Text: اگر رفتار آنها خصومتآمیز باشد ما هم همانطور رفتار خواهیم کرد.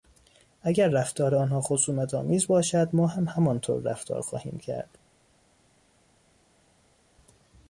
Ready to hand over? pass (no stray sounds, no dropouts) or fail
pass